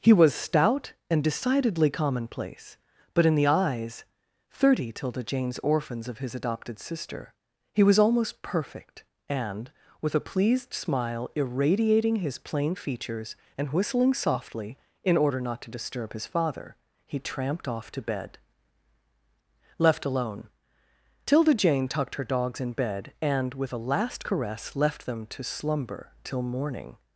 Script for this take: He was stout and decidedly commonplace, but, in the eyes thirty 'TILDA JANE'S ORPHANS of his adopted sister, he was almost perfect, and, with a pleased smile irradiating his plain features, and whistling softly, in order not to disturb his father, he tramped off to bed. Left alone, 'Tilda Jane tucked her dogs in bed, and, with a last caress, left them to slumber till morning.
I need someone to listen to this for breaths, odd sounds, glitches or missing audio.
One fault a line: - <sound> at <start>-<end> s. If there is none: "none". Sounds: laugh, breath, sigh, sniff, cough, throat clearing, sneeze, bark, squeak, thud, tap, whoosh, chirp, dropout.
none